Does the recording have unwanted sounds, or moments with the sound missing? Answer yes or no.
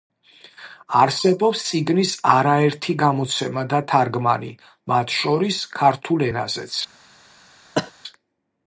yes